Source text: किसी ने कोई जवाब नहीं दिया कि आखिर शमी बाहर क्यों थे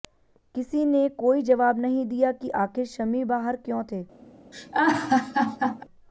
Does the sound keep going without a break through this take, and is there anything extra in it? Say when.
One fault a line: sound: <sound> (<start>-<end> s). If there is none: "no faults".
sound: laugh (4.5-5.8 s)